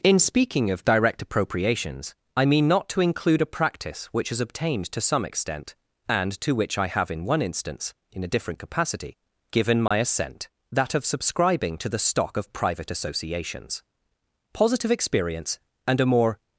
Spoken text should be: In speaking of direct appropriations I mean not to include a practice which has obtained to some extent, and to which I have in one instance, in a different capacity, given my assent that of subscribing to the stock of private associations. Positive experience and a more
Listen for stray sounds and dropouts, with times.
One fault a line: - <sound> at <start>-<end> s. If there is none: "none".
- dropout at 9.9-9.9 s